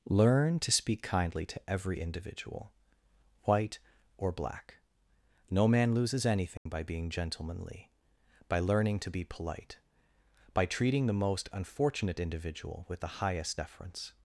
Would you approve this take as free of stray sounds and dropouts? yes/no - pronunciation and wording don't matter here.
no